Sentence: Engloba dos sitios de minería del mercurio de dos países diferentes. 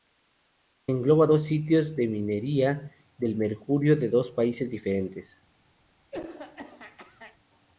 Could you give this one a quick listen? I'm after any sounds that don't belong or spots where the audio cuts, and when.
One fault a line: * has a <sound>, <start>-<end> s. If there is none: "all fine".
* has a throat clearing, 6.1-7.4 s